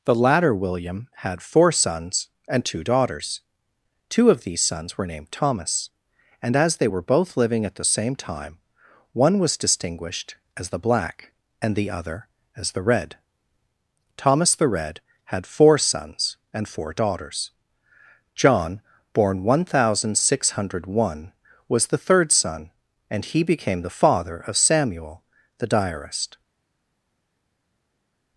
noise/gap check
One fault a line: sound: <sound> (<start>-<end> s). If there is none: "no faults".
no faults